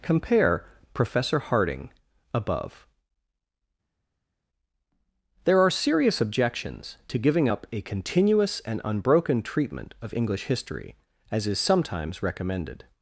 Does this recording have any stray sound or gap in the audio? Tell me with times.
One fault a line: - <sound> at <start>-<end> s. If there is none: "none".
none